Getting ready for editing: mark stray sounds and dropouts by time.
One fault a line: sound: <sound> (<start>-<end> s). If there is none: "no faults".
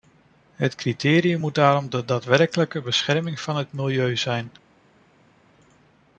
no faults